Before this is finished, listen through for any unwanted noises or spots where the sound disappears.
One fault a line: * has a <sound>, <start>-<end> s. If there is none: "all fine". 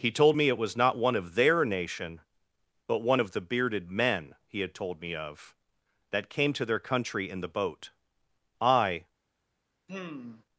* has a sigh, 9.9-10.4 s